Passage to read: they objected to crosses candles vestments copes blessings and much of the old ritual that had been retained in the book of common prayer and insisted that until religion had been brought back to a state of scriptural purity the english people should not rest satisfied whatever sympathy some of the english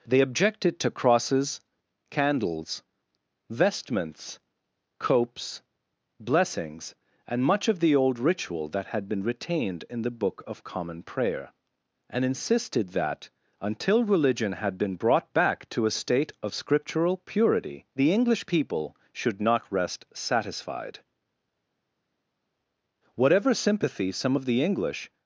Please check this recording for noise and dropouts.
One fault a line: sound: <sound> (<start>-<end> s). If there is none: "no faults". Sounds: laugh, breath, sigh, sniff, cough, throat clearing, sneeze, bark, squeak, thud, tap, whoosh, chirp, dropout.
no faults